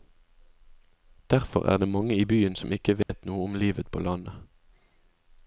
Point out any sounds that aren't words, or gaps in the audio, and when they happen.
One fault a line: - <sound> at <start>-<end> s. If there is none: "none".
- dropout at 3.0-3.1 s